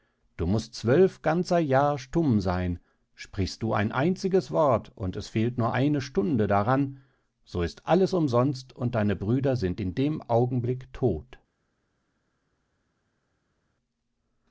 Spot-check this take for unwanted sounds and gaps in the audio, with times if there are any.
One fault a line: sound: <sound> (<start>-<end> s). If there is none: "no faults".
no faults